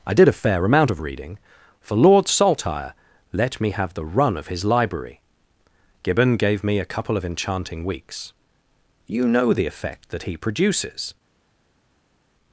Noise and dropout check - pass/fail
pass